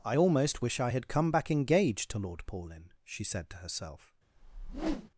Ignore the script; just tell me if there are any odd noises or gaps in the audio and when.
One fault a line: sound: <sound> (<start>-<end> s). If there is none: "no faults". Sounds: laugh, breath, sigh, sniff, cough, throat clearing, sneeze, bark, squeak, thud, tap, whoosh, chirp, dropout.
sound: whoosh (4.4-5.1 s)